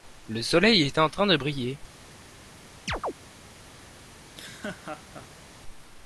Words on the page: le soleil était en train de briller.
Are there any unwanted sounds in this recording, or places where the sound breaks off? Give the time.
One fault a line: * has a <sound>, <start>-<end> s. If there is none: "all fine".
* has a chirp, 2.9-3.1 s
* has a laugh, 4.2-5.5 s